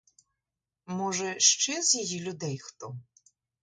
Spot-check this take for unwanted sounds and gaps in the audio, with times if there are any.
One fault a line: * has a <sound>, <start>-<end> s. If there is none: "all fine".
all fine